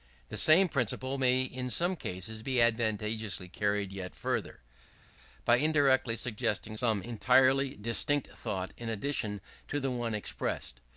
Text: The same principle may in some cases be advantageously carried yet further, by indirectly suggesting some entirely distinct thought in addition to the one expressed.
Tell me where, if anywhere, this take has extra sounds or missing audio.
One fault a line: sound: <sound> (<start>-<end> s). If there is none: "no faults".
no faults